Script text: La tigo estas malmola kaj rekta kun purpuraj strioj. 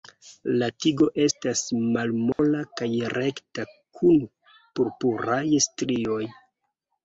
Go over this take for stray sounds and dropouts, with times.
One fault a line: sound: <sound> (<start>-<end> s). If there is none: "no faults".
sound: dropout (2.3-2.4 s)